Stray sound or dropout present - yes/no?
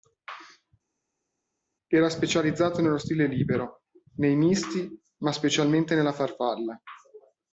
no